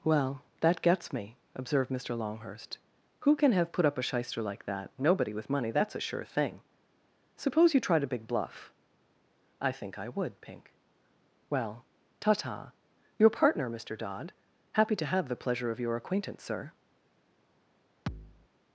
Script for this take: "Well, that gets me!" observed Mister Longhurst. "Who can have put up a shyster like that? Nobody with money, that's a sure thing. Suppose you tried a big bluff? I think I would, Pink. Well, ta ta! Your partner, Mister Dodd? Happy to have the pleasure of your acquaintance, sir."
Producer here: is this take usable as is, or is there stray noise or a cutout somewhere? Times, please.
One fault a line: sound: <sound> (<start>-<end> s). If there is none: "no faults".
sound: thud (18.1-18.5 s)